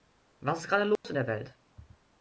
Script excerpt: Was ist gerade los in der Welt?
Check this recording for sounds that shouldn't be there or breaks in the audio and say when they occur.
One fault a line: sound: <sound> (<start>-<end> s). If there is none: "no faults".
sound: dropout (1.0-1.0 s)